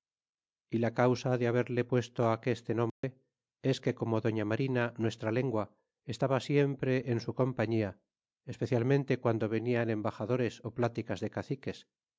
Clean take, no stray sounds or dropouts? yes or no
no